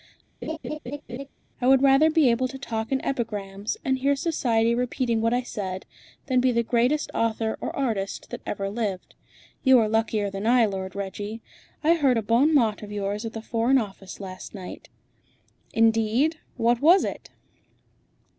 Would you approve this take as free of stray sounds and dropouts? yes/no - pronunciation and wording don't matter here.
no